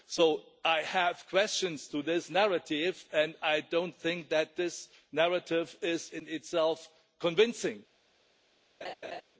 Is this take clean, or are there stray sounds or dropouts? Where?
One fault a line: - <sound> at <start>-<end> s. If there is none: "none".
- laugh at 8.8-9.2 s